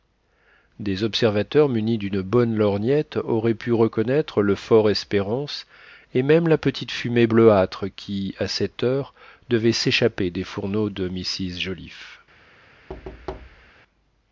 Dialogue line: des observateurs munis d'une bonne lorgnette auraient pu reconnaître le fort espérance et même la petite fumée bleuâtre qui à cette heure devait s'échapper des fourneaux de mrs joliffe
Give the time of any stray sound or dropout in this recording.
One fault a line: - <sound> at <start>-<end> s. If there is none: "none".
- thud at 12.9-13.7 s